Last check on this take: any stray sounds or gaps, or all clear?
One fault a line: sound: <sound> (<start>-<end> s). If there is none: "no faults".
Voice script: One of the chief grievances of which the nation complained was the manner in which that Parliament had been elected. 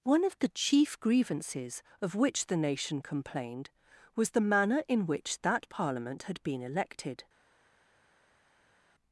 no faults